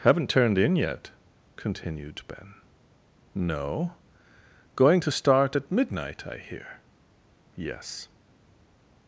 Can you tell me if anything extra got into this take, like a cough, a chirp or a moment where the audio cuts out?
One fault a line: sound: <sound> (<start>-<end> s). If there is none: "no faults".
no faults